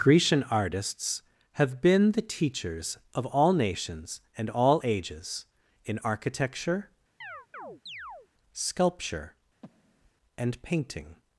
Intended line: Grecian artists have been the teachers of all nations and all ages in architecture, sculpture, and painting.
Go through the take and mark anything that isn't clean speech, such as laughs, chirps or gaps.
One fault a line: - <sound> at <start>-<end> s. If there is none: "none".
- chirp at 7.2-8.3 s
- breath at 9.6-10.1 s